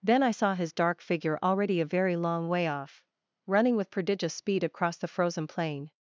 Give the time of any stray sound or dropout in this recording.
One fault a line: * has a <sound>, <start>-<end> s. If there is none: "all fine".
all fine